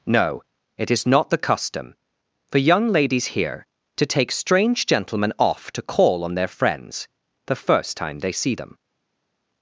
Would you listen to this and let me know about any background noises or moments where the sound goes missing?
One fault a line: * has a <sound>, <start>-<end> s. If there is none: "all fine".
all fine